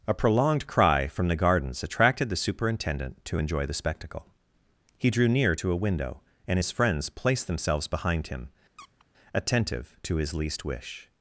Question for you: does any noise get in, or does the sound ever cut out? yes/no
yes